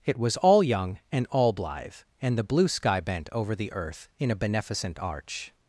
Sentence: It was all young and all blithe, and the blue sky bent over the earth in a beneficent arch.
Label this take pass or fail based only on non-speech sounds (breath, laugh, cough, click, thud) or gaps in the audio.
pass